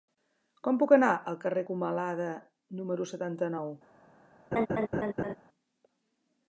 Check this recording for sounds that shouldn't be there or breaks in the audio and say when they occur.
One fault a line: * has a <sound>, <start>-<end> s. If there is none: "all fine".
* has a laugh, 4.5-5.4 s